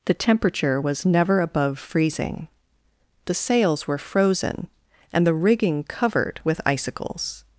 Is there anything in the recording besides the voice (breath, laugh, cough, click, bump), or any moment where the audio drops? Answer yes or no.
no